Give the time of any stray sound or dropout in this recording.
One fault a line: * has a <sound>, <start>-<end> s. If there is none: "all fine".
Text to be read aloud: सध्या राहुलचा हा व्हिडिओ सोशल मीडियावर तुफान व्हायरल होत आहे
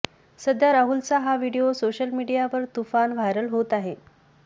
all fine